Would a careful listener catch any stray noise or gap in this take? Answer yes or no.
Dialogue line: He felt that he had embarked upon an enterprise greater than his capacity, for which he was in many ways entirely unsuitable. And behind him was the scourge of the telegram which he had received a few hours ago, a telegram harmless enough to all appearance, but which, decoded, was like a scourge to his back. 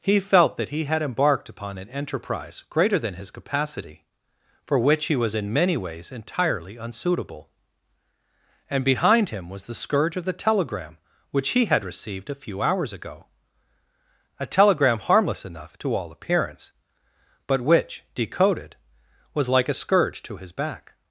no